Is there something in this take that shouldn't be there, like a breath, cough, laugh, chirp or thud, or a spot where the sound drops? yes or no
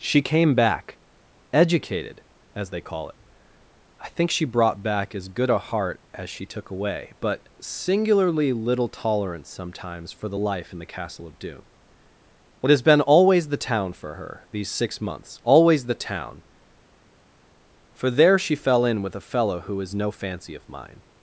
no